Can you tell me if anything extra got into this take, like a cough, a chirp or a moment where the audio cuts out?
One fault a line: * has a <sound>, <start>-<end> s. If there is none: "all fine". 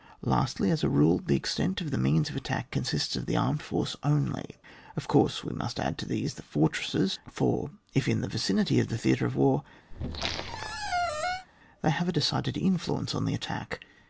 * has a squeak, 9.9-11.5 s